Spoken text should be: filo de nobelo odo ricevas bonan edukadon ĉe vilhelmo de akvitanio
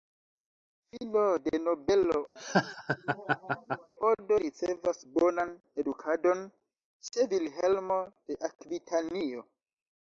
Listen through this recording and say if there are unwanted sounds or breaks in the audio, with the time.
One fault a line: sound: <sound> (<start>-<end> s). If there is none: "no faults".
sound: laugh (2.4-3.9 s)